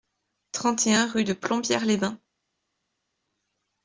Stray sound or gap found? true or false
false